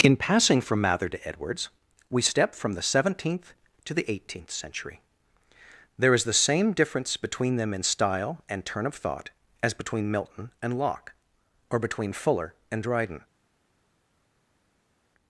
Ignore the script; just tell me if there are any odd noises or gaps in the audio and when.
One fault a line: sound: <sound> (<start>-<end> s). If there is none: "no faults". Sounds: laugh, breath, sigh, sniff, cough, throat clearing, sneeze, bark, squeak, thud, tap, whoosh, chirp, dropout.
no faults